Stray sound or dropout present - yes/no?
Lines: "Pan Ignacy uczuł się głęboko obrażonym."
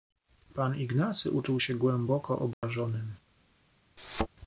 yes